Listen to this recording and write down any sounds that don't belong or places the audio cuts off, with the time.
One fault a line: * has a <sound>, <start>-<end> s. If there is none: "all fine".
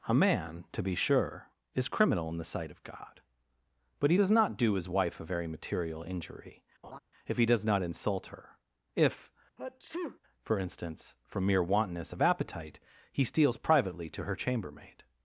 * has a laugh, 6.8-7.0 s
* has a sneeze, 9.6-10.2 s